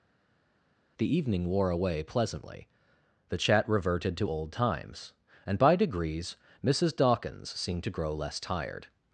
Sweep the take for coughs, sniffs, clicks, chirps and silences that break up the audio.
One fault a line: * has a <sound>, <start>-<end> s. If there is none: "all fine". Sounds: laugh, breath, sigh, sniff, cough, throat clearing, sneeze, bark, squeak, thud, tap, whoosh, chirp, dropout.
all fine